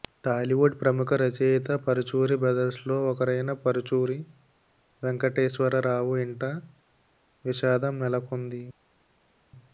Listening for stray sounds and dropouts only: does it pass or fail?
pass